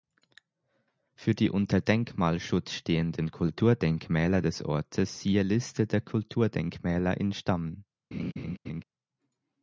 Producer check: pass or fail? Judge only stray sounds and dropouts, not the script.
fail